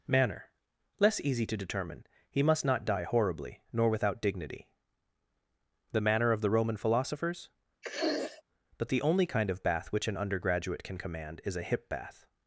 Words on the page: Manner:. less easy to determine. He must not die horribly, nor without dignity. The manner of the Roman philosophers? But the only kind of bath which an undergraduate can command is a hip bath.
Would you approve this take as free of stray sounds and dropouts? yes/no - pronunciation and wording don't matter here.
no